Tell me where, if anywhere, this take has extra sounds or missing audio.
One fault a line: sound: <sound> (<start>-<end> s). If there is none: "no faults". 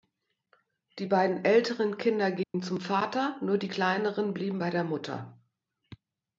sound: dropout (2.4-2.5 s)